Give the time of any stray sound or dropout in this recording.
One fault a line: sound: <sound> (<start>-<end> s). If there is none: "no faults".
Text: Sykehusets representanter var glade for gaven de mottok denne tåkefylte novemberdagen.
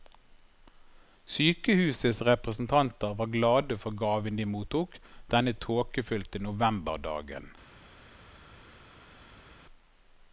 no faults